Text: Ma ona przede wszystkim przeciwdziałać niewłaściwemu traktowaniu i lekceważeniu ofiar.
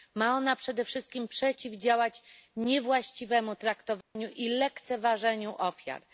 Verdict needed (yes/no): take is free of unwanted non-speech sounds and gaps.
no